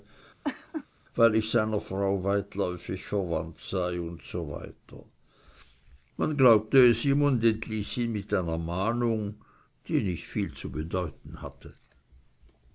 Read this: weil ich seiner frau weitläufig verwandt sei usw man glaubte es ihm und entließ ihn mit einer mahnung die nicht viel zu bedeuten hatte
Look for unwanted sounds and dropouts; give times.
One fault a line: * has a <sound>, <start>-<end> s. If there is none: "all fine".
* has a laugh, 0.4-0.9 s